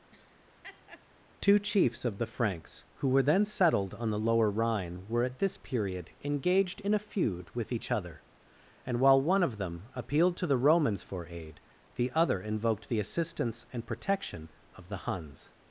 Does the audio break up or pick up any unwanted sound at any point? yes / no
yes